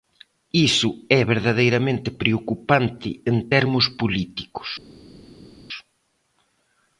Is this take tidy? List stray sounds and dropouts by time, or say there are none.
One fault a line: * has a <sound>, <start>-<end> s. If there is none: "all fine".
all fine